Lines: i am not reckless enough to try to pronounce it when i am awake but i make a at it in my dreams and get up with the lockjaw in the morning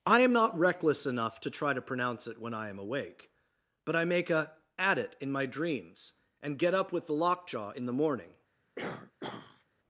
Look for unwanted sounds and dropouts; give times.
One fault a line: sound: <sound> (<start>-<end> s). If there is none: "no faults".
sound: throat clearing (8.8-9.6 s)